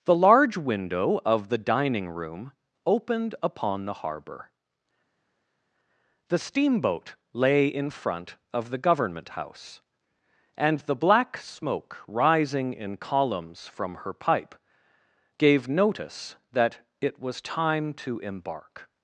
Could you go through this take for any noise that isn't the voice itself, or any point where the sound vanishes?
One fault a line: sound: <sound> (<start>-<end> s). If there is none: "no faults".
no faults